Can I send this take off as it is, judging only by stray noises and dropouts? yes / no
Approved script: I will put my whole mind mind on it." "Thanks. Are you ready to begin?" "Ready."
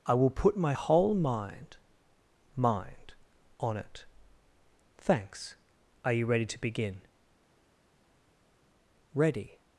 yes